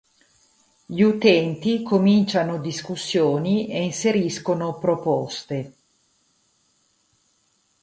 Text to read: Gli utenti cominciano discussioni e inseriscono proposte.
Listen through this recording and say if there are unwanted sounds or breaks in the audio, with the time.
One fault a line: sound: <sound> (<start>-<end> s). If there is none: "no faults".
no faults